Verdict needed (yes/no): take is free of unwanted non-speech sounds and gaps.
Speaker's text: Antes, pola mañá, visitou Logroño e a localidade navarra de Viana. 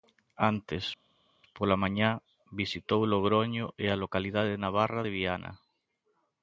yes